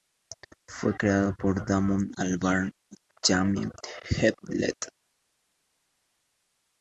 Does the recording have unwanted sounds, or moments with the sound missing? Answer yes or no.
no